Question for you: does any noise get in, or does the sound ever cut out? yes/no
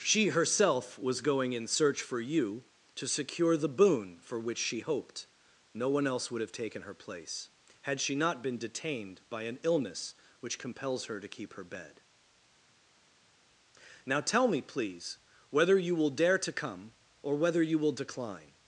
no